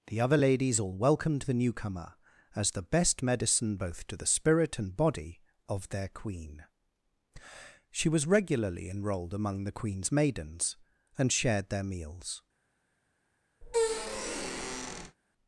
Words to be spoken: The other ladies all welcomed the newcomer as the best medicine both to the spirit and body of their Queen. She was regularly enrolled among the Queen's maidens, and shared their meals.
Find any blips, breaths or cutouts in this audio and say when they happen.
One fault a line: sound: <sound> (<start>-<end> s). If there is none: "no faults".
sound: squeak (13.6-15.2 s)